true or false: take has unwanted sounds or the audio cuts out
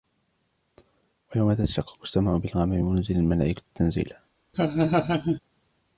true